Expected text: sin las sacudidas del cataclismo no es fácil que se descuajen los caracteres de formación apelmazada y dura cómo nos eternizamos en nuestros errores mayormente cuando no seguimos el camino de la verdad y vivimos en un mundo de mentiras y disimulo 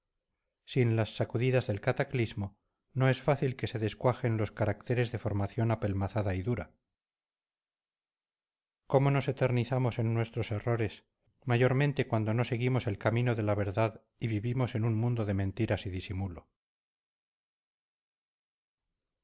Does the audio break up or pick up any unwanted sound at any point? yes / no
no